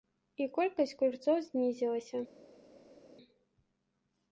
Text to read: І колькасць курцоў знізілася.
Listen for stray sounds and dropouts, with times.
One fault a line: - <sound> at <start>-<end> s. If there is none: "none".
none